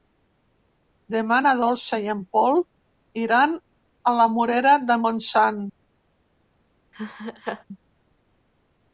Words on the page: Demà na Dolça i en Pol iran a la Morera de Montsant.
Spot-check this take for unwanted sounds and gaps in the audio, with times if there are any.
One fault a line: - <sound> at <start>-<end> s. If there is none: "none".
- laugh at 6.9-7.6 s